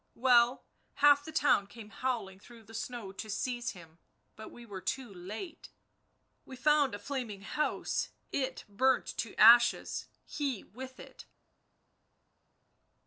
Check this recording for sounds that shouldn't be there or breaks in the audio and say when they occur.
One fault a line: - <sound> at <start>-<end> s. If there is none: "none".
none